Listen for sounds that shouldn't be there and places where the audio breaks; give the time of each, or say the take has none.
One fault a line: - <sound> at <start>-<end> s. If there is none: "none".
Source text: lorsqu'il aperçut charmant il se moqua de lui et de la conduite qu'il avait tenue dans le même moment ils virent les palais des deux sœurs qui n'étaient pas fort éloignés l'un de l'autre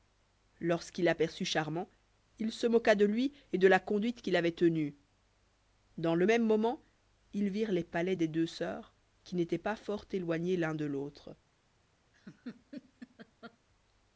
- laugh at 12.1-13.6 s